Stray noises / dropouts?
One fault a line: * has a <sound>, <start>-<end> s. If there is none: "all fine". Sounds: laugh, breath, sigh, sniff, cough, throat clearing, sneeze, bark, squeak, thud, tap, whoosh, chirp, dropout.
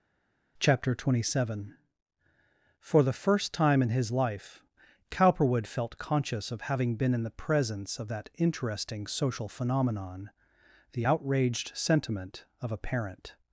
all fine